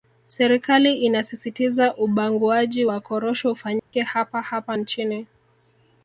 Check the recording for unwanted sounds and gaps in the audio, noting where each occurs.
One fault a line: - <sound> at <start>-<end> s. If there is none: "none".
- dropout at 3.8-3.9 s